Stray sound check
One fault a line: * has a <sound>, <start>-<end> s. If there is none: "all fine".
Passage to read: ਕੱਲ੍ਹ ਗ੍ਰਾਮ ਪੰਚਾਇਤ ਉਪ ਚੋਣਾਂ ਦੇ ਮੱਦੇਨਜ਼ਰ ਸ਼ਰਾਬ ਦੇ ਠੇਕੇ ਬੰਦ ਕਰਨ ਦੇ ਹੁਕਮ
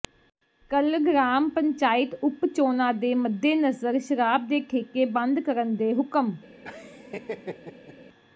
* has a laugh, 6.6-8.0 s